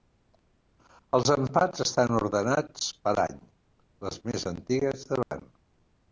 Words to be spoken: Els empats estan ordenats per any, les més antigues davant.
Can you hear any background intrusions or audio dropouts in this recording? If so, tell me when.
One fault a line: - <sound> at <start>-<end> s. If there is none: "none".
- dropout at 5.2-5.3 s